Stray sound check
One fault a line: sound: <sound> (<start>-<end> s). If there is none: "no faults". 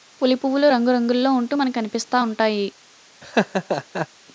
sound: laugh (3.2-4.1 s)